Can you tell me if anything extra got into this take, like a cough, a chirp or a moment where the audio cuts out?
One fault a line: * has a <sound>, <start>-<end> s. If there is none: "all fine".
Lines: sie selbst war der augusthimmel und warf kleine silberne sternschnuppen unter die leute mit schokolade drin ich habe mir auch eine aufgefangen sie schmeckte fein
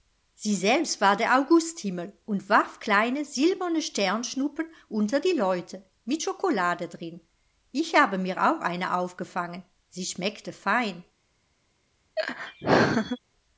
* has a laugh, 12.2-13.2 s